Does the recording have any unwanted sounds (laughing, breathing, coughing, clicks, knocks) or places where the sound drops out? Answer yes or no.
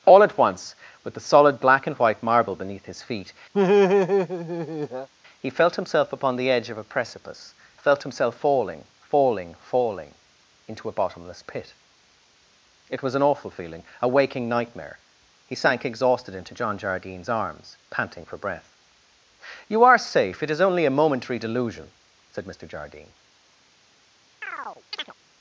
yes